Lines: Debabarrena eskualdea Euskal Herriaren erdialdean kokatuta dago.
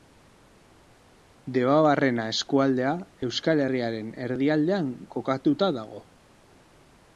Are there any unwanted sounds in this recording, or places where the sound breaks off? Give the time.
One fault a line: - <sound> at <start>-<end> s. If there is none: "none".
none